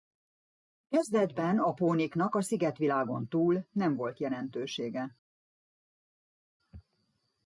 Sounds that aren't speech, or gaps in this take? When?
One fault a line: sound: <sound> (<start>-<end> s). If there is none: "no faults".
no faults